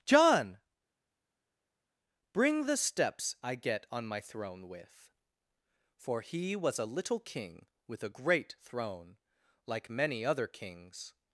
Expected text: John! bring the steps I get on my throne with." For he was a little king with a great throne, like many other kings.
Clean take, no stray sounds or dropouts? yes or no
yes